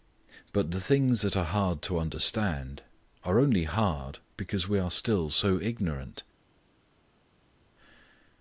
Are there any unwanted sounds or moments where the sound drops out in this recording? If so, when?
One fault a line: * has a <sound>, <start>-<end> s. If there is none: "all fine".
all fine